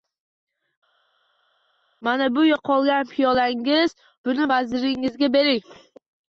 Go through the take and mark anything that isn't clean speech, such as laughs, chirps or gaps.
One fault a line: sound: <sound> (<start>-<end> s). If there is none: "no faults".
no faults